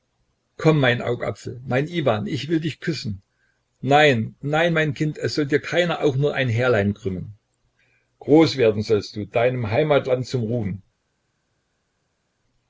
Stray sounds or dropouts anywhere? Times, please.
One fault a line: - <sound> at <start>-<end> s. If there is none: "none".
none